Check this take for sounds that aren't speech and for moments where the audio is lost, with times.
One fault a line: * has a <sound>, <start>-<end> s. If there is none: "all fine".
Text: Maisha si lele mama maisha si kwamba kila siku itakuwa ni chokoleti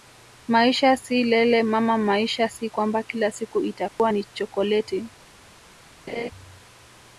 * has a dropout, 3.9-4.0 s
* has a laugh, 6.1-6.3 s